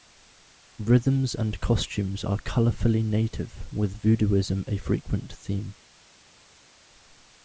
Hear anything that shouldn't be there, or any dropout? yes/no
no